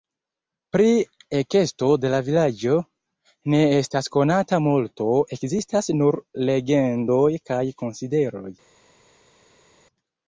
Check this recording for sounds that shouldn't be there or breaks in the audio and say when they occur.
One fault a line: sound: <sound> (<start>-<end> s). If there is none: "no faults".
no faults